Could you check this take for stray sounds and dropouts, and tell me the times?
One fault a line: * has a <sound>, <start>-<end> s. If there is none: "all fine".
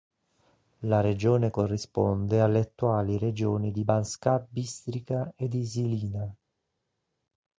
all fine